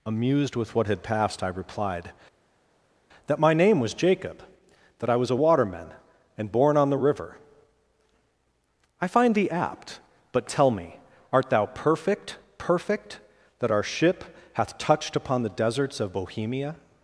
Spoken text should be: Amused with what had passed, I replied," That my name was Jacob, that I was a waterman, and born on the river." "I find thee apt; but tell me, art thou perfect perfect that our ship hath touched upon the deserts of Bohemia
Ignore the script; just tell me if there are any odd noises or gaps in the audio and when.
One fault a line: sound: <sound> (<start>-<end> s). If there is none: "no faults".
no faults